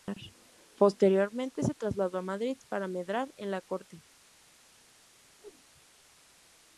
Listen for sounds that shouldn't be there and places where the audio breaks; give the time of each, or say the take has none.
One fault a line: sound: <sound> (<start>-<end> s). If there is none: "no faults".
sound: whoosh (5.4-5.6 s)